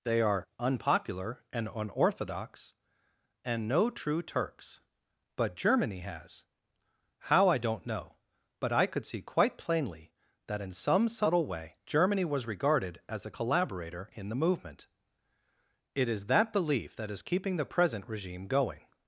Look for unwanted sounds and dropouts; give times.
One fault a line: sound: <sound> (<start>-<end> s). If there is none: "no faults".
no faults